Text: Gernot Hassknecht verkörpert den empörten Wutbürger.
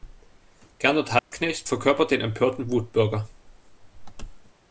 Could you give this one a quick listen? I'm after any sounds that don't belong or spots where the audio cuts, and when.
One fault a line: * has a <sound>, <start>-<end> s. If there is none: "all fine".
* has a dropout, 1.2-1.3 s